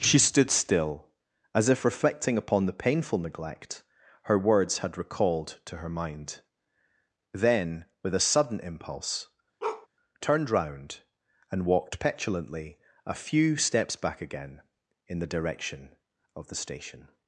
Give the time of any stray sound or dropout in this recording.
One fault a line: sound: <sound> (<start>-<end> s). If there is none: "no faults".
sound: bark (9.6-9.9 s)